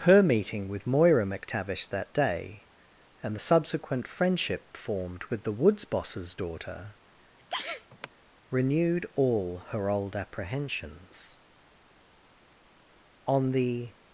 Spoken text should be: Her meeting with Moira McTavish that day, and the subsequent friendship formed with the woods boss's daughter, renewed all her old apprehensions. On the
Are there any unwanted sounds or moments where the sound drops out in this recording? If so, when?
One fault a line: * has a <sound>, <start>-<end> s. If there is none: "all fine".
* has a sneeze, 7.4-8.1 s